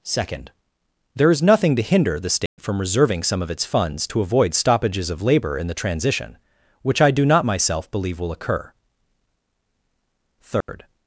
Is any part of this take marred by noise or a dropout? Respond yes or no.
yes